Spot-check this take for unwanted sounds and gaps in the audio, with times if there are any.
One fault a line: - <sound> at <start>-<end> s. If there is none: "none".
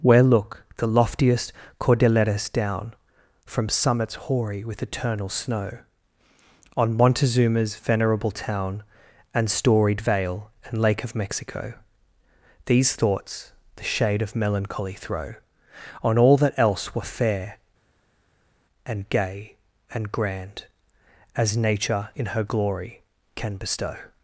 none